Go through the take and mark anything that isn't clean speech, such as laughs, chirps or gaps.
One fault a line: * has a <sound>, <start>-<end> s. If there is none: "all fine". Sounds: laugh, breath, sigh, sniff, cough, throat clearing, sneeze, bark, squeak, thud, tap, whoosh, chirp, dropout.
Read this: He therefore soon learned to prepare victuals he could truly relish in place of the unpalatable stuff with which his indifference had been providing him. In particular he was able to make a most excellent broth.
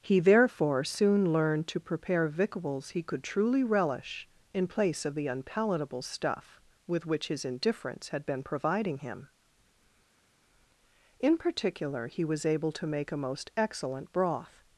all fine